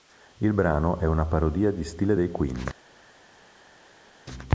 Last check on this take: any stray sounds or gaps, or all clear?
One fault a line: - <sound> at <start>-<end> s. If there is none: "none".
none